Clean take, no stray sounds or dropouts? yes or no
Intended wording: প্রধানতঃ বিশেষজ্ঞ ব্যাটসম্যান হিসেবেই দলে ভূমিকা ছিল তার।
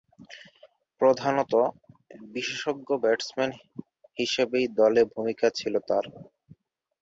yes